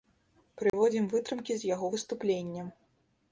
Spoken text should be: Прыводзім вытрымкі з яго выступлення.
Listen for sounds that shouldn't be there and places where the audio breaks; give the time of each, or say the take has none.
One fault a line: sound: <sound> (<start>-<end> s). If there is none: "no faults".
sound: dropout (0.7-0.7 s)